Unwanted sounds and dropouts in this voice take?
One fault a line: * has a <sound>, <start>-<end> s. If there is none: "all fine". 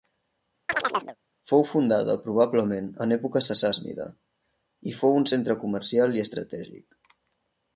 * has a chirp, 0.7-1.2 s